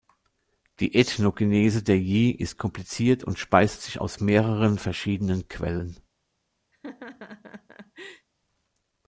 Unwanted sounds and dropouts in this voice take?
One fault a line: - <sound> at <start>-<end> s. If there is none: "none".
- laugh at 6.7-8.3 s